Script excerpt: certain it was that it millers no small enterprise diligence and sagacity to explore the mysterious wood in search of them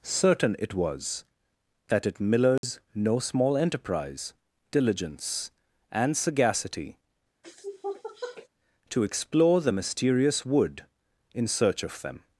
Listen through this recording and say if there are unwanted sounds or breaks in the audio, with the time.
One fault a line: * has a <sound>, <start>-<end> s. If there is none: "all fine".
* has a dropout, 2.6-2.6 s
* has a sniff, 7.4-8.5 s